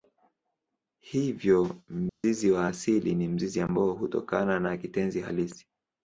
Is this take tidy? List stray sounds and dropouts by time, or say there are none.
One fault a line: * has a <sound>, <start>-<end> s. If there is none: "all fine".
* has a dropout, 2.1-2.2 s